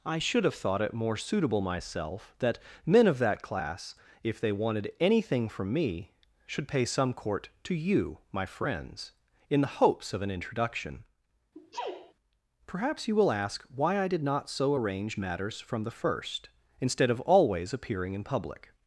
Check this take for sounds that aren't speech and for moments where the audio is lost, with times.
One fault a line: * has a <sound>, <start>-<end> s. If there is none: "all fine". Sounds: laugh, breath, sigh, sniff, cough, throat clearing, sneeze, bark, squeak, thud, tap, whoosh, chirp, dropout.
* has a sneeze, 11.5-12.1 s